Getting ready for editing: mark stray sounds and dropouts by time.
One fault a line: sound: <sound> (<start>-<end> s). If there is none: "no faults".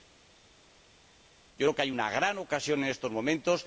no faults